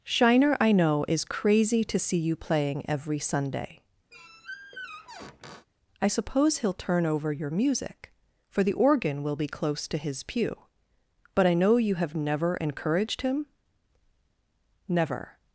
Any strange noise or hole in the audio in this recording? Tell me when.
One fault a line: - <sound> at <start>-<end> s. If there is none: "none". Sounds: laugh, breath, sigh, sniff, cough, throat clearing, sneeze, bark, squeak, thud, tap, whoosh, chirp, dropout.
- squeak at 4.1-5.7 s